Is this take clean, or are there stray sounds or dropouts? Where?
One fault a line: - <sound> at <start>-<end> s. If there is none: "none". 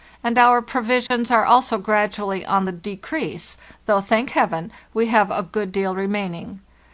- dropout at 1.1-1.1 s